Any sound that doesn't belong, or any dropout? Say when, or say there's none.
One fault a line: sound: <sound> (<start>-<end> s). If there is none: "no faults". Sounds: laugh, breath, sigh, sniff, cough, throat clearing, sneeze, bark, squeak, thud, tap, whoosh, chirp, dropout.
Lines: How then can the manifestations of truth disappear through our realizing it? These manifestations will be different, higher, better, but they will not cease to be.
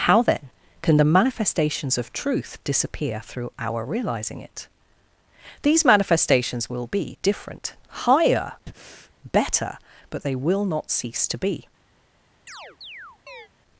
sound: breath (8.7-9.1 s)
sound: chirp (12.5-13.5 s)